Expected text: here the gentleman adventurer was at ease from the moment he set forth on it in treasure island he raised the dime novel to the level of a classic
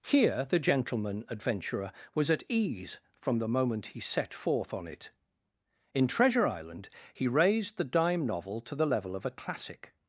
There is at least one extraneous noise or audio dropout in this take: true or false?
false